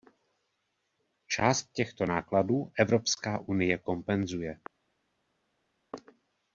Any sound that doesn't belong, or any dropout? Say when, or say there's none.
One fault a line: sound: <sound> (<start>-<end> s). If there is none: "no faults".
no faults